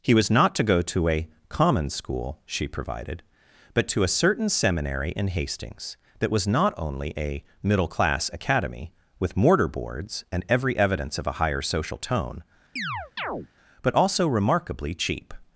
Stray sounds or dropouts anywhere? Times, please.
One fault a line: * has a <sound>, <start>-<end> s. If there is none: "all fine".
* has a chirp, 12.8-13.5 s